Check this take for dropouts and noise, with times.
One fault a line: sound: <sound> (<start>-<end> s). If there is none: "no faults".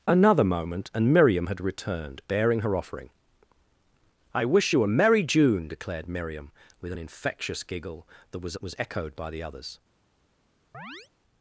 sound: chirp (10.7-11.1 s)